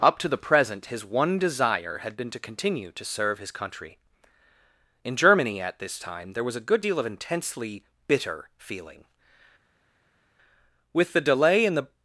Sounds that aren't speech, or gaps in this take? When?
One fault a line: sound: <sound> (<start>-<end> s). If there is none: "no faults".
no faults